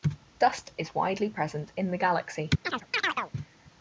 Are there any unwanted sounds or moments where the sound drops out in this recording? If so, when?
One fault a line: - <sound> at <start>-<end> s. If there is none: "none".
- chirp at 2.6-3.3 s